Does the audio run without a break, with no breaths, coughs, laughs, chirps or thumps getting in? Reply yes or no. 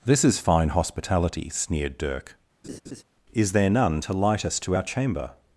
no